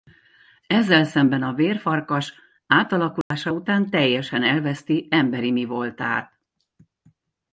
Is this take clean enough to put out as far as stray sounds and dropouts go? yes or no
no